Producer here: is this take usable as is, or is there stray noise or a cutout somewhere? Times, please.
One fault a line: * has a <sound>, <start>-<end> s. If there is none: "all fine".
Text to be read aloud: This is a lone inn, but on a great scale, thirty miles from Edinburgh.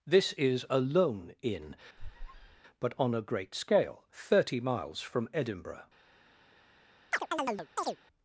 * has a squeak, 2.0-2.6 s
* has a chirp, 7.1-8.0 s